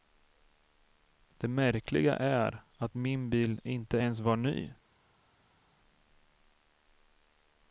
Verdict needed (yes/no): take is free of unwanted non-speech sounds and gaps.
yes